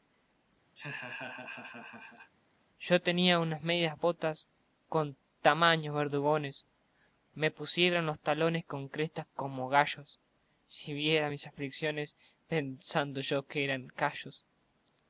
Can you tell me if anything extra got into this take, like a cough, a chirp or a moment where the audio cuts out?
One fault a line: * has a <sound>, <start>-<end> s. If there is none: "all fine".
* has a laugh, 0.8-2.3 s